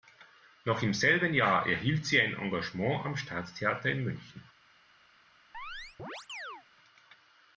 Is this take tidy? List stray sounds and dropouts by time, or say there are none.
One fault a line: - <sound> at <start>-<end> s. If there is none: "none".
- chirp at 5.5-6.6 s